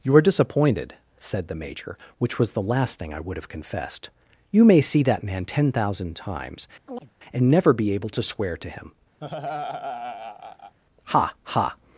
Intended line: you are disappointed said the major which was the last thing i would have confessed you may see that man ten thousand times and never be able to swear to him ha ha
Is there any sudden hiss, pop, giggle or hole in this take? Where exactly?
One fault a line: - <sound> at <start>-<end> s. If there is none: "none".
- chirp at 6.9-7.1 s
- laugh at 9.2-10.8 s